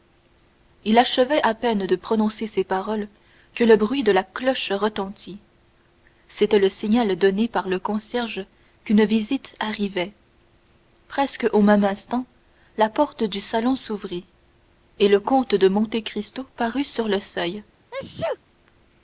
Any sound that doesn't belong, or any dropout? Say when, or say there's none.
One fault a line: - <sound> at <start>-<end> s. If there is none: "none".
- sneeze at 17.9-18.4 s